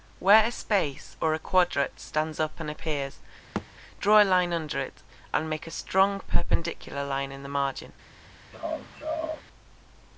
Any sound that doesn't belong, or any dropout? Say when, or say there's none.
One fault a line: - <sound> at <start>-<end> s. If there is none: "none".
- thud at 3.6-3.7 s
- laugh at 8.5-9.4 s